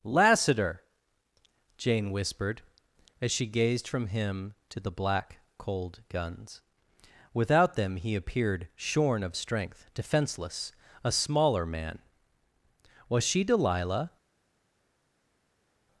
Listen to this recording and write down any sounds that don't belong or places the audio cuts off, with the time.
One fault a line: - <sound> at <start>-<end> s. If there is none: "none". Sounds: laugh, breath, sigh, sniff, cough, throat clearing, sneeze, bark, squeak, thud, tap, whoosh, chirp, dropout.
none